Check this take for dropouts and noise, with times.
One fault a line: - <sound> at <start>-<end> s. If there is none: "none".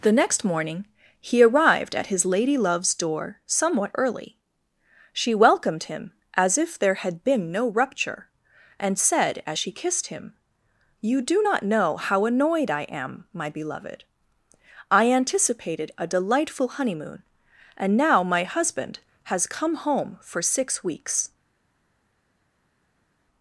none